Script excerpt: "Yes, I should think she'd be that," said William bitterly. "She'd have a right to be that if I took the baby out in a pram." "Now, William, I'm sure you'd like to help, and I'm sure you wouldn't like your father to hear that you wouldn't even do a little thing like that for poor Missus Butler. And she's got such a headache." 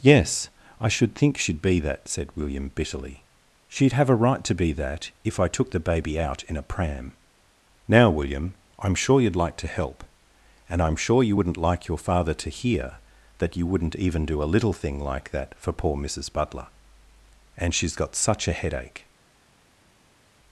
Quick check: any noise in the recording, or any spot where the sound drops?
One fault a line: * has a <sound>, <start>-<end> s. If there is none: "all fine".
all fine